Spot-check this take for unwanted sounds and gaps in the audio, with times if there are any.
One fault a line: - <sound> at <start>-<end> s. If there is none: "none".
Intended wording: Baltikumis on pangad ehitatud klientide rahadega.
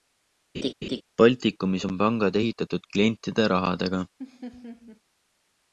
- laugh at 0.5-1.0 s
- laugh at 4.2-5.0 s